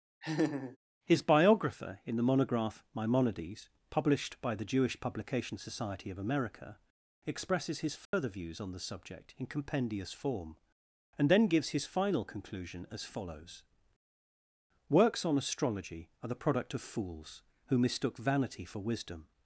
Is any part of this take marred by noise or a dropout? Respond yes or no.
yes